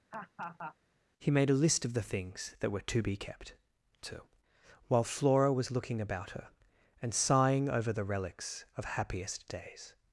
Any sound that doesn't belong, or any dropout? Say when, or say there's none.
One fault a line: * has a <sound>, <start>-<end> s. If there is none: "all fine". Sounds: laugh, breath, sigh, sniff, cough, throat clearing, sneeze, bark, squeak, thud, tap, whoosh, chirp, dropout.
* has a laugh, 0.1-0.8 s